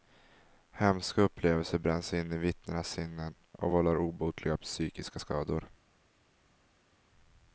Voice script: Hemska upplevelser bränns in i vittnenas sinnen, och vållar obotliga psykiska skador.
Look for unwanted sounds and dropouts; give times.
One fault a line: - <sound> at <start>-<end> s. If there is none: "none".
none